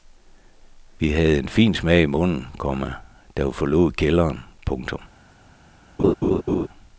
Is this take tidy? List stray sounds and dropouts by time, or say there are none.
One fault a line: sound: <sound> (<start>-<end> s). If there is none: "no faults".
sound: laugh (6.0-6.7 s)